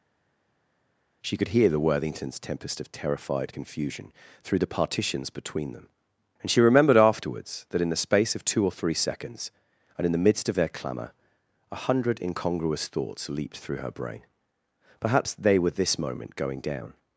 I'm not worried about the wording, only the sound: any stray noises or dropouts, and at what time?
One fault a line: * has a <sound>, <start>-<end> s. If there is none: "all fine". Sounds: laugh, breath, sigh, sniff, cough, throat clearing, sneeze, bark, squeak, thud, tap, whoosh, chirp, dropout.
all fine